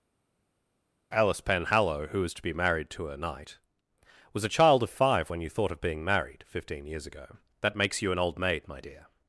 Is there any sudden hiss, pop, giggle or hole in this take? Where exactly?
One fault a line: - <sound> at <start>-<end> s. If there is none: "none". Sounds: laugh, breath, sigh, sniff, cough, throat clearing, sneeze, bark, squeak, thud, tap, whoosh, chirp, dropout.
none